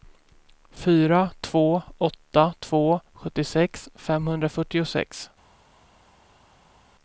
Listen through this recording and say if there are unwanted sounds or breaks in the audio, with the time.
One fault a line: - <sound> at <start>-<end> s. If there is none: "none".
none